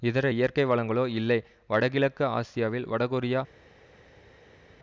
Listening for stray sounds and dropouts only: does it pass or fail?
pass